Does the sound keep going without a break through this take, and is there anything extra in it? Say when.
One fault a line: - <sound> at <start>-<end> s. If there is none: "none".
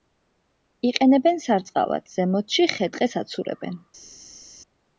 none